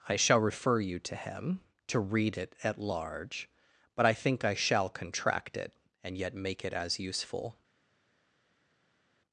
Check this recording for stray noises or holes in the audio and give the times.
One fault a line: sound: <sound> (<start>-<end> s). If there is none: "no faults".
no faults